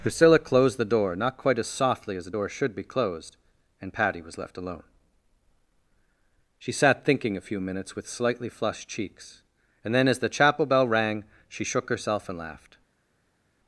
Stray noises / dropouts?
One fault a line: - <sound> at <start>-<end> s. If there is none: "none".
none